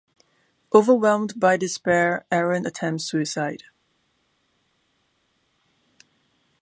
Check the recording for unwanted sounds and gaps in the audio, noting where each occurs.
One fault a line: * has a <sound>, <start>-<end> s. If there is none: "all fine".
all fine